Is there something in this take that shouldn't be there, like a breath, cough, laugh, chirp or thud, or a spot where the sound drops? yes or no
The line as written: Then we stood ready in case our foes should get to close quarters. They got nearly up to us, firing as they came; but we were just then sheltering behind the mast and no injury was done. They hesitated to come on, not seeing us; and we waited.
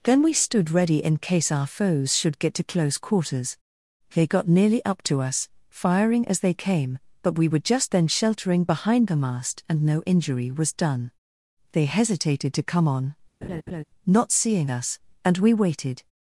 yes